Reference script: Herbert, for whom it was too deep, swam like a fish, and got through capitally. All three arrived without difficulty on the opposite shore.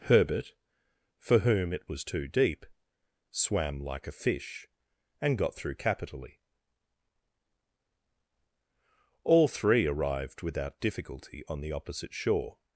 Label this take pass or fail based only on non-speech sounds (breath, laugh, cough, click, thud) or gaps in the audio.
pass